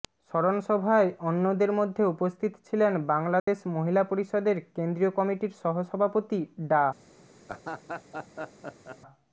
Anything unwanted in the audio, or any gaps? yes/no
yes